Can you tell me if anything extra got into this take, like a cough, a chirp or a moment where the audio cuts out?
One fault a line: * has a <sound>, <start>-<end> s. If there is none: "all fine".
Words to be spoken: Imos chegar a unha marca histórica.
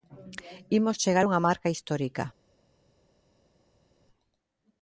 all fine